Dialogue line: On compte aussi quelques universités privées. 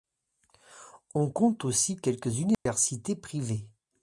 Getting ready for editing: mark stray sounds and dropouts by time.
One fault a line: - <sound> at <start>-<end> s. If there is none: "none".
- dropout at 2.5-2.7 s